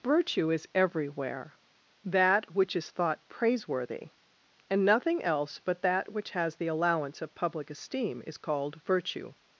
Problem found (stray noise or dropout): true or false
false